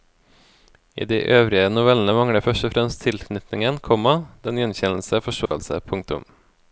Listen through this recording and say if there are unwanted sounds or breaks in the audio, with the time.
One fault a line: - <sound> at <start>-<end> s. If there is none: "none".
- dropout at 5.5-5.5 s